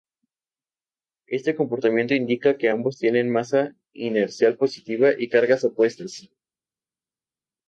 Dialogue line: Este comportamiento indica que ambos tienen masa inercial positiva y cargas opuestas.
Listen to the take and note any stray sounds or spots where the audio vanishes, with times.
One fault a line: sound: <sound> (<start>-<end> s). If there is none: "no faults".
no faults